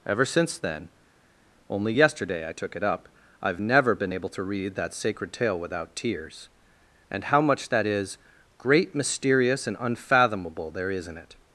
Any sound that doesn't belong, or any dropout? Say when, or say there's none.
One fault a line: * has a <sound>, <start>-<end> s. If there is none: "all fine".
all fine